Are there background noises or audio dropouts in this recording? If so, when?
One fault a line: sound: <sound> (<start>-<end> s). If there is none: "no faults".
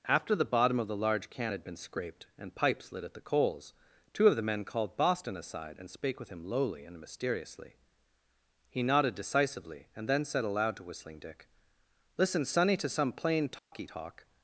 sound: dropout (13.6-13.7 s)